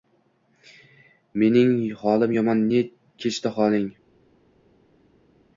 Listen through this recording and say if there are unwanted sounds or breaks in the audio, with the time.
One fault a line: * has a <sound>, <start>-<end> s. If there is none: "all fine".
all fine